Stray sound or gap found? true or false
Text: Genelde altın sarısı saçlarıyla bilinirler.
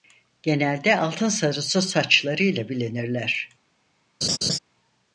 true